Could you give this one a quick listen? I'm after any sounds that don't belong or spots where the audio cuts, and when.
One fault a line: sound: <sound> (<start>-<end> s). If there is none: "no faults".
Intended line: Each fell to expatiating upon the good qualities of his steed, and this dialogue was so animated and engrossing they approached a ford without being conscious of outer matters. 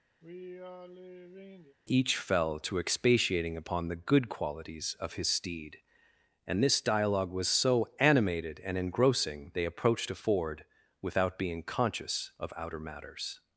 sound: sigh (0.2-1.8 s)